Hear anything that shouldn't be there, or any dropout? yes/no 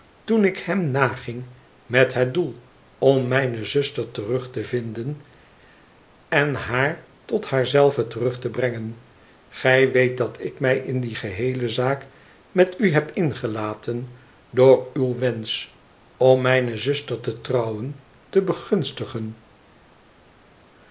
no